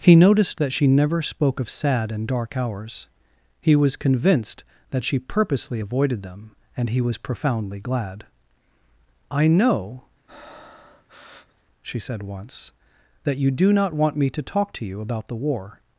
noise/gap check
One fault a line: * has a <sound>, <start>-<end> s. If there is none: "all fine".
* has a breath, 10.3-11.6 s